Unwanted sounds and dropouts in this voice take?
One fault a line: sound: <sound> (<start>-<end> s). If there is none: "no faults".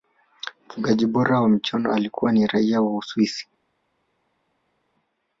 no faults